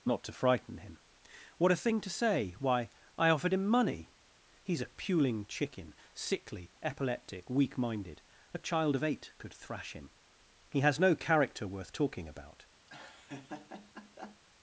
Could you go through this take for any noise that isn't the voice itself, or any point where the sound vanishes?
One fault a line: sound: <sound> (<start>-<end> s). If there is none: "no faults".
sound: laugh (12.9-14.4 s)